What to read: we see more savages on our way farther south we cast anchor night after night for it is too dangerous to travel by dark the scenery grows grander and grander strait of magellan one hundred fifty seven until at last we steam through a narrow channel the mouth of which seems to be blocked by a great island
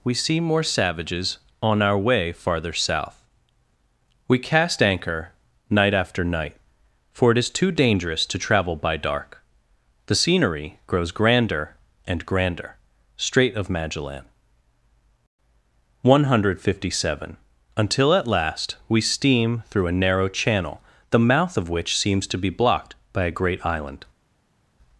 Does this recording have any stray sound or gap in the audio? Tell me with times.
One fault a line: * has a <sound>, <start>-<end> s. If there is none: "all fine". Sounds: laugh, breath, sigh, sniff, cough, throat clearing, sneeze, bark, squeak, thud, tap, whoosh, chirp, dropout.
all fine